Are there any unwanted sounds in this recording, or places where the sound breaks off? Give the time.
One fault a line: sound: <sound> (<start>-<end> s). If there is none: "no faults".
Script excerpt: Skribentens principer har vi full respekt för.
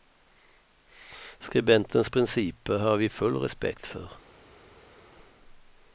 no faults